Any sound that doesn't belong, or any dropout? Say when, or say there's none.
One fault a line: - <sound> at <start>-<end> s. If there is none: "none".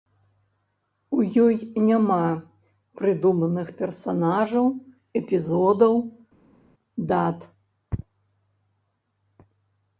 none